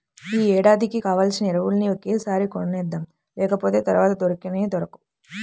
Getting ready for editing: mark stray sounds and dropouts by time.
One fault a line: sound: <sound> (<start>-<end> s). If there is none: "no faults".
no faults